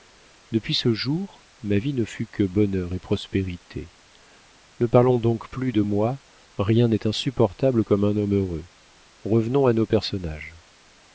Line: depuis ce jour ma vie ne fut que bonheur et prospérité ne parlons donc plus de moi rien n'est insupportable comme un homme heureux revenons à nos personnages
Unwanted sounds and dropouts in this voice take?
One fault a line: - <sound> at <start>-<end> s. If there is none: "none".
none